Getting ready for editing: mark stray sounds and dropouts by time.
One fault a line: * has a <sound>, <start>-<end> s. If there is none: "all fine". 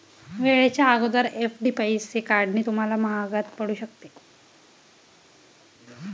all fine